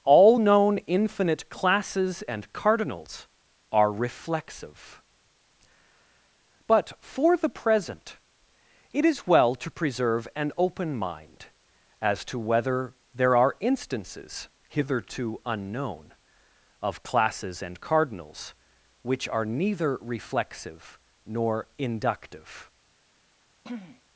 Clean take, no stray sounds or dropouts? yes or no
no